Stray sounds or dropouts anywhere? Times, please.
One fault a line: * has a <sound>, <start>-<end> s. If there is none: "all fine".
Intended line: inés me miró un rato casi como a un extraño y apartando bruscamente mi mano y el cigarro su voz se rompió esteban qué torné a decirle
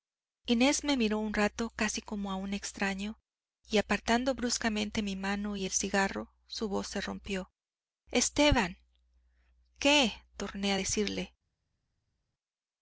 all fine